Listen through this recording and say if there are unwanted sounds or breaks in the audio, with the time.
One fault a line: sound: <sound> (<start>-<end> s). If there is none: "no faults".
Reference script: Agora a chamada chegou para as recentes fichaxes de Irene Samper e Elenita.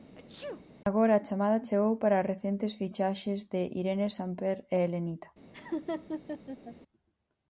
sound: sneeze (0.1-0.6 s)
sound: laugh (5.5-6.8 s)